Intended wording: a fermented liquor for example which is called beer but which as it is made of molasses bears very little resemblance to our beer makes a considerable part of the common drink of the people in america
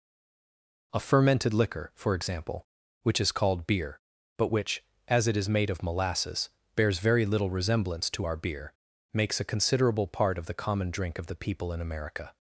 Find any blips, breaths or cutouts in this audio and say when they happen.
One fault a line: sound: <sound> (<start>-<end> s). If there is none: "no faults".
no faults